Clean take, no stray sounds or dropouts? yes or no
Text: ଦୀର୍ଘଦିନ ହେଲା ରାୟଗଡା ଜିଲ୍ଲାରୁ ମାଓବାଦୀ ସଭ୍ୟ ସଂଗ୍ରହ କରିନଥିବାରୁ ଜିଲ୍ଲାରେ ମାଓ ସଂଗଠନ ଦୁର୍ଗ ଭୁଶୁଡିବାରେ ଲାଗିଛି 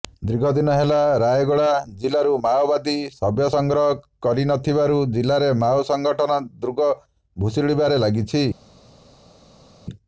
yes